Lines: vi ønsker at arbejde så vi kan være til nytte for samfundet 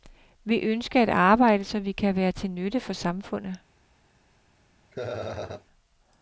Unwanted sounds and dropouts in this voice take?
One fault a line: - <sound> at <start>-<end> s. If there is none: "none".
- laugh at 4.9-5.7 s